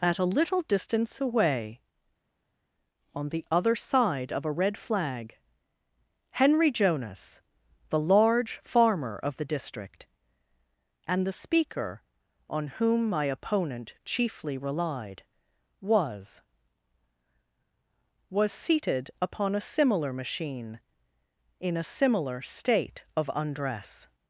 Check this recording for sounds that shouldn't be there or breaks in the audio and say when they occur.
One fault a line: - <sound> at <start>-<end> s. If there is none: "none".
none